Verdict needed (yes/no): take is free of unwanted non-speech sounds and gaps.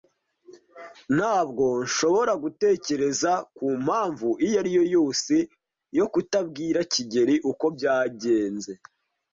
yes